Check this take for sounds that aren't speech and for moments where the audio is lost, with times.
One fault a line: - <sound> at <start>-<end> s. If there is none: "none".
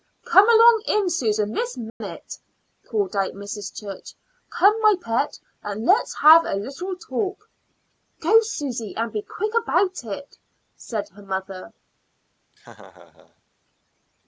- dropout at 1.9-2.0 s
- laugh at 12.5-13.4 s